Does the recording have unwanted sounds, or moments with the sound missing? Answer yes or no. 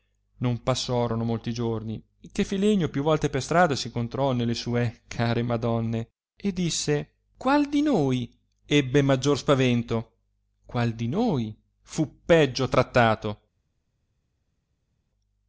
no